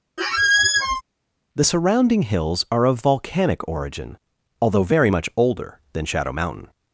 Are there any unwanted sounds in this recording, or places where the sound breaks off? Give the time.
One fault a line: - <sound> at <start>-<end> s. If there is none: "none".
- squeak at 0.2-1.0 s